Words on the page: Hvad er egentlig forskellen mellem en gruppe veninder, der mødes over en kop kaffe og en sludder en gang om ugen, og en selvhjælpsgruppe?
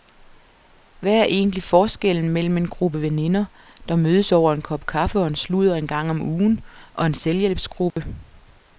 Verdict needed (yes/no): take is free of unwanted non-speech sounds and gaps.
no